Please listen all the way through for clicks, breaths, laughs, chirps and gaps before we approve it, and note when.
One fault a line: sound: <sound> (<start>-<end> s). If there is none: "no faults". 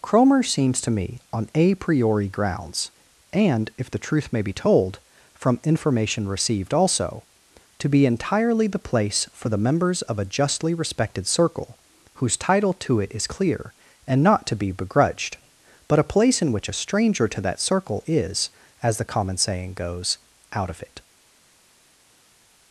no faults